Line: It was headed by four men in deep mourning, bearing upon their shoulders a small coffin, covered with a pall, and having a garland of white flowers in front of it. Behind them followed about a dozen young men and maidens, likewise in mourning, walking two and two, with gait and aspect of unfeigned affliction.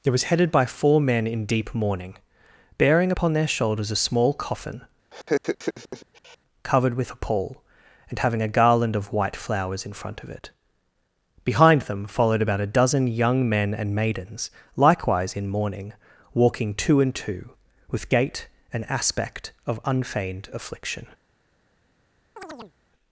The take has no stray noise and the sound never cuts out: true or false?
false